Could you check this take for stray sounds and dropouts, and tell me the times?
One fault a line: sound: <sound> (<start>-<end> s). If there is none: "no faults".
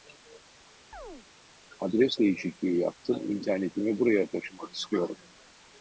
sound: chirp (0.9-1.3 s)